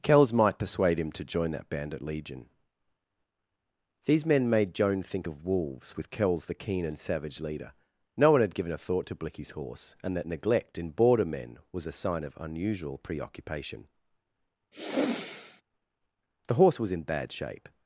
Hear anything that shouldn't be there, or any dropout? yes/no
yes